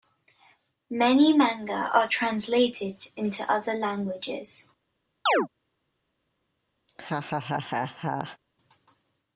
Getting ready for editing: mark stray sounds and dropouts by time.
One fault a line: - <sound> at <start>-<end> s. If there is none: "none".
- chirp at 5.3-5.5 s
- laugh at 6.9-8.4 s